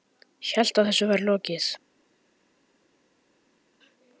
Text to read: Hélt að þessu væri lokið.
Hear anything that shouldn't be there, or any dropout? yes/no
no